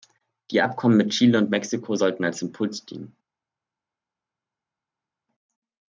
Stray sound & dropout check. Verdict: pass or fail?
pass